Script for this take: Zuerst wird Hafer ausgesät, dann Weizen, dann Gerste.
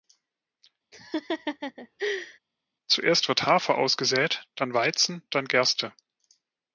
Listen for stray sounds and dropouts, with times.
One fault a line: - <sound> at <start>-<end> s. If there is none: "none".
- laugh at 0.9-2.4 s